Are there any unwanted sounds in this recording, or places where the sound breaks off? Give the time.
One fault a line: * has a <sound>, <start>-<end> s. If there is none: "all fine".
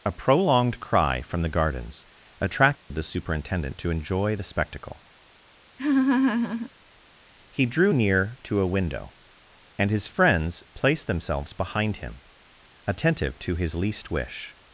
* has a dropout, 2.8-2.9 s
* has a laugh, 5.8-6.7 s